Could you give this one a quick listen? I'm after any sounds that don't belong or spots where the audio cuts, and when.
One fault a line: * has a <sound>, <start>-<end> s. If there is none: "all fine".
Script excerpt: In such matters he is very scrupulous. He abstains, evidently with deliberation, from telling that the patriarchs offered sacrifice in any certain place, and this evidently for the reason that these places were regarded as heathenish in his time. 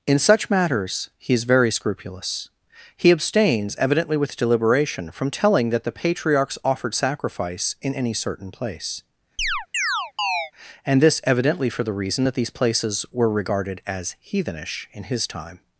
* has a chirp, 9.4-10.5 s